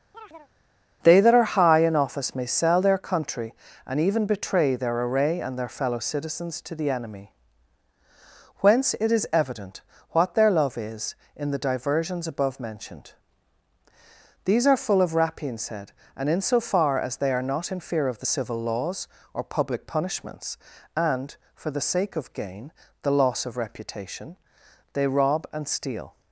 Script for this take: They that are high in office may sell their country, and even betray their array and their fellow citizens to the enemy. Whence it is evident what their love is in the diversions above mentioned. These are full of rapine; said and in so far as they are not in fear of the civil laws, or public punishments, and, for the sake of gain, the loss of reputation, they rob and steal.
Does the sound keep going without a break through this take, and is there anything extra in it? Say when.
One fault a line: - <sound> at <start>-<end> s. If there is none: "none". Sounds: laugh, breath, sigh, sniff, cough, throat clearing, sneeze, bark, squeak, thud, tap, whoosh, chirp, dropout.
- chirp at 0.1-0.5 s